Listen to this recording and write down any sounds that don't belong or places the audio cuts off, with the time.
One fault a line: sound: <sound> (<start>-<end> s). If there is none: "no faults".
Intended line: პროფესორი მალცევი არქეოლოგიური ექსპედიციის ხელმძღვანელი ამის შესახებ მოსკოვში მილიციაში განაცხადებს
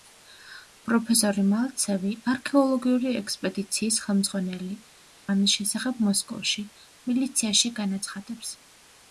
no faults